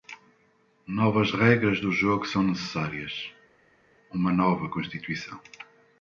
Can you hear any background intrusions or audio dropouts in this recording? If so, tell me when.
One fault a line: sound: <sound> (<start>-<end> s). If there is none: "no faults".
no faults